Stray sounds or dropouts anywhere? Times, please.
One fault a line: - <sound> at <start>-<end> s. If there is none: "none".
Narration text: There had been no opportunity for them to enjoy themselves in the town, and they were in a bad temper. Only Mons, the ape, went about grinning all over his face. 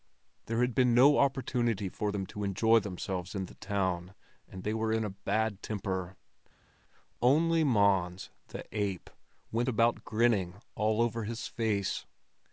none